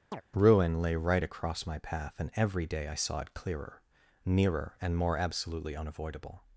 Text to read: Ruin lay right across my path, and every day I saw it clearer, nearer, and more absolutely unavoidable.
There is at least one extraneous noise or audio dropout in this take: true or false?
true